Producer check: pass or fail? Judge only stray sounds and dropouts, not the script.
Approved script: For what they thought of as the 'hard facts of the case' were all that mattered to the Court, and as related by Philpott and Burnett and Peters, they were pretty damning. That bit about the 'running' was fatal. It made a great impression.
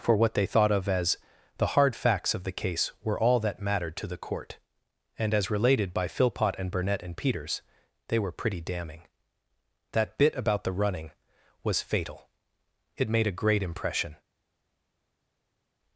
pass